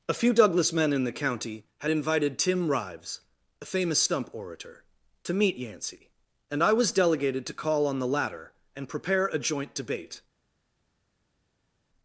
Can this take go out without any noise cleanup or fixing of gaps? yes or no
yes